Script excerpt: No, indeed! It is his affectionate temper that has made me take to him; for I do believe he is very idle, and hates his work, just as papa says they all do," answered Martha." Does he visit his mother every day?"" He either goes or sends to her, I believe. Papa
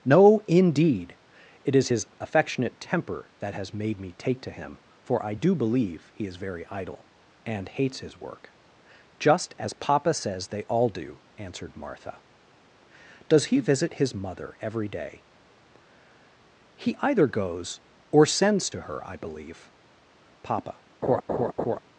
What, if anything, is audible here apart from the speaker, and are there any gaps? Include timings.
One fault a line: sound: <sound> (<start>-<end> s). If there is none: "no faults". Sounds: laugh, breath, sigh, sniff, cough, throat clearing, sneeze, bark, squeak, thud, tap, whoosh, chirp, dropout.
sound: laugh (21.0-21.8 s)